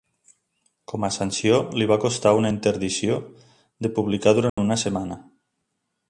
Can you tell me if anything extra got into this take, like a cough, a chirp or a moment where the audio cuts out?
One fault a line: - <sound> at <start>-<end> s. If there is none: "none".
- dropout at 4.5-4.6 s